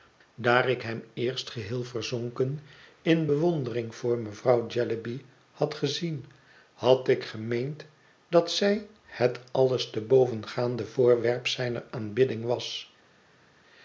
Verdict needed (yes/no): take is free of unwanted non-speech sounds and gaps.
yes